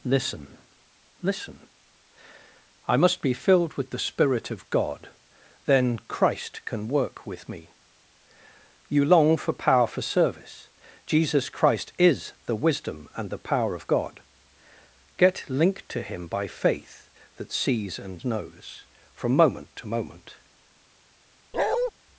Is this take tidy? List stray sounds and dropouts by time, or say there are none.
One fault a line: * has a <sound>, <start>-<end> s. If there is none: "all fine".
* has a bark, 21.5-21.9 s